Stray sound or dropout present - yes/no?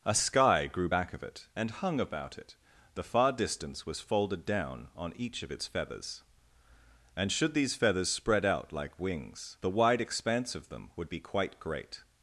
no